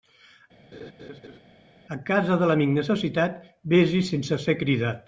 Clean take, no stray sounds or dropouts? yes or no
no